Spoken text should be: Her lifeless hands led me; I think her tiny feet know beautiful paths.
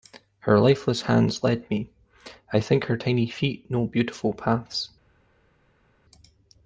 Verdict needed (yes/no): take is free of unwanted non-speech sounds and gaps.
yes